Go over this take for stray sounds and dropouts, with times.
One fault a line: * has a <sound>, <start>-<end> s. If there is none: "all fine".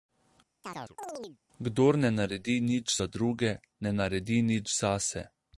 * has a chirp, 0.6-1.4 s